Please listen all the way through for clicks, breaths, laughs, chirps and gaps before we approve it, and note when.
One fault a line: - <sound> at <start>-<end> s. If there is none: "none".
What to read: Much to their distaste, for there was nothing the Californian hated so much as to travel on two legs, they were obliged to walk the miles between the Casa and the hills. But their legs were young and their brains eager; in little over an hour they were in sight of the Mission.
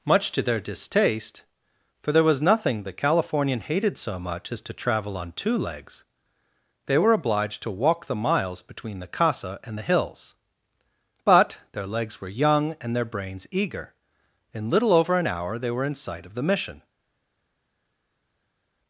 none